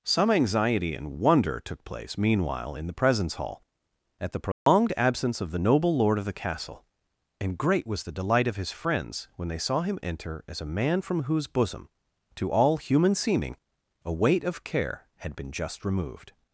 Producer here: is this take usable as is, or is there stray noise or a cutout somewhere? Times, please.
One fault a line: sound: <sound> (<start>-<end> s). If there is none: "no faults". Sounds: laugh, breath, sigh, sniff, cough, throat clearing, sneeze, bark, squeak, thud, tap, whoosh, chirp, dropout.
sound: dropout (4.5-4.7 s)